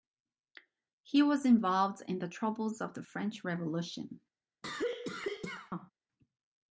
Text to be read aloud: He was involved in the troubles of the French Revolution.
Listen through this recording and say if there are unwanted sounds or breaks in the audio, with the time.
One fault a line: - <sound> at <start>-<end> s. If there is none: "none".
- cough at 4.6-5.9 s